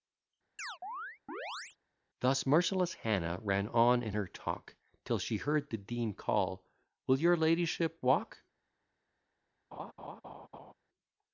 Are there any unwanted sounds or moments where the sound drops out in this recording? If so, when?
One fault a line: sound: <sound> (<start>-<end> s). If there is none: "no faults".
sound: chirp (0.6-1.8 s)
sound: laugh (9.7-10.7 s)